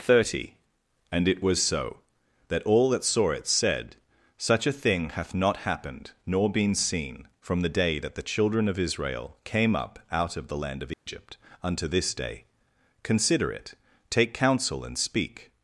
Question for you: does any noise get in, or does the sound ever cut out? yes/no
yes